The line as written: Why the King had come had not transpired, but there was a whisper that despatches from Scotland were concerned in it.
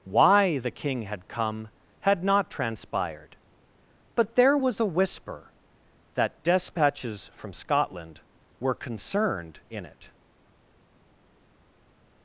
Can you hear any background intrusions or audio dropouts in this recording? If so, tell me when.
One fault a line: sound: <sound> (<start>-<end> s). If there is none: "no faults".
no faults